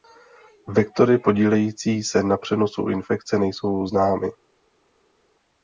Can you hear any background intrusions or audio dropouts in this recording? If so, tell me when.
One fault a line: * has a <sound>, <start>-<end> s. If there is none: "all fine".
all fine